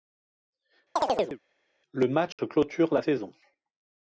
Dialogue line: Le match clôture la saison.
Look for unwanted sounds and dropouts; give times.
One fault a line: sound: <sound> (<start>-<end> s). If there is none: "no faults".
sound: chirp (1.0-1.4 s)
sound: dropout (2.3-2.4 s)